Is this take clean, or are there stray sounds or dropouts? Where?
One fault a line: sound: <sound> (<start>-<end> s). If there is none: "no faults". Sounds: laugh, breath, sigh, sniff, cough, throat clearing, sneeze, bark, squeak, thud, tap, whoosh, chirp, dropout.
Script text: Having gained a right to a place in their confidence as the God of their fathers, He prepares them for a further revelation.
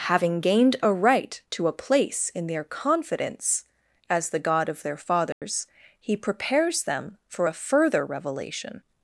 sound: dropout (5.3-5.4 s)